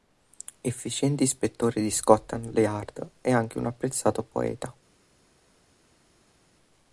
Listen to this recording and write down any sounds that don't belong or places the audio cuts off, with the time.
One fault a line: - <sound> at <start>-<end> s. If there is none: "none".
none